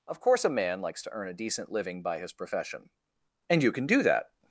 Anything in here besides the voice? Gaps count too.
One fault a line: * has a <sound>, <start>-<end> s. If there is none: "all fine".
all fine